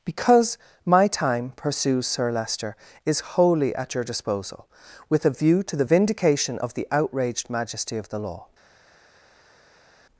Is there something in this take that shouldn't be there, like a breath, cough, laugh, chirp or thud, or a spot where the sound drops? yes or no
no